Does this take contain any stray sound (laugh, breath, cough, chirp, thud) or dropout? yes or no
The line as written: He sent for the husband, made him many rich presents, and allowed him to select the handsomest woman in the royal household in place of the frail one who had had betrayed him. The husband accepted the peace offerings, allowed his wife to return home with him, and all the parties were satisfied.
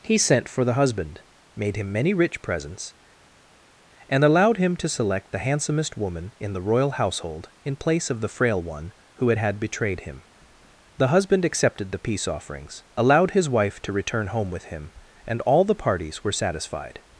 no